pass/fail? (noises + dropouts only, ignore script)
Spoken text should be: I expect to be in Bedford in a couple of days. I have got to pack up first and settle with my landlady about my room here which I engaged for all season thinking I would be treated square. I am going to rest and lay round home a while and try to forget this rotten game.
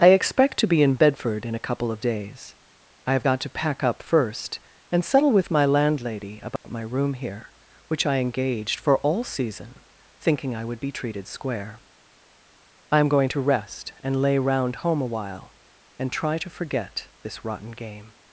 fail